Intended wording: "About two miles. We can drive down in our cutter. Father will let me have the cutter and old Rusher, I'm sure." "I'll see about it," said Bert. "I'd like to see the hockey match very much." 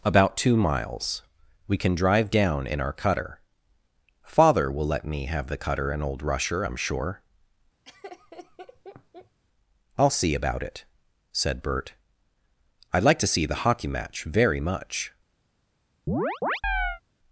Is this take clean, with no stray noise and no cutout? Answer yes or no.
no